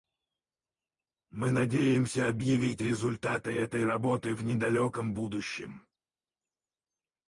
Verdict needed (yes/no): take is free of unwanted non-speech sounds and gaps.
yes